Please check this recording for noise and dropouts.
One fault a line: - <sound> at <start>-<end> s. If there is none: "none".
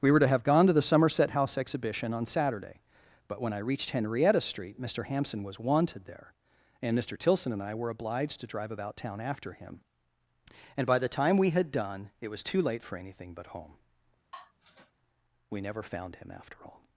- sigh at 14.3-14.9 s